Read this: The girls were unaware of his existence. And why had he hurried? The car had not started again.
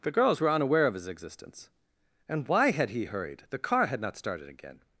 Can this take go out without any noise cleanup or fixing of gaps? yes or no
yes